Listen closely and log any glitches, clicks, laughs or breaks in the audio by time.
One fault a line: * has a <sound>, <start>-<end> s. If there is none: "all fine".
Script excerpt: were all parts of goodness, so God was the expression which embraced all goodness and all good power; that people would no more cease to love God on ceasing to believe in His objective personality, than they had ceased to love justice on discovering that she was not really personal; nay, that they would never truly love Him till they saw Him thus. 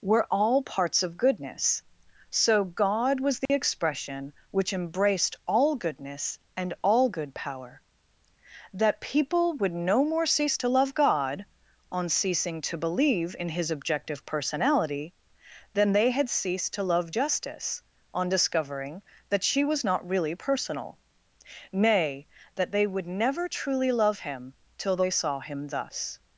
* has a dropout, 3.5-3.5 s